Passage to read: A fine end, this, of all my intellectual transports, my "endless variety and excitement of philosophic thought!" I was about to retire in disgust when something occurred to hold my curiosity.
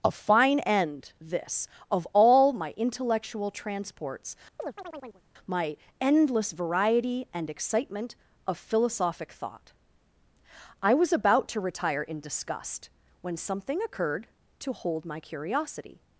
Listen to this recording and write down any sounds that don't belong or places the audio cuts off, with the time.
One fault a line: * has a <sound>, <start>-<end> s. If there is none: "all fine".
* has a chirp, 4.6-5.2 s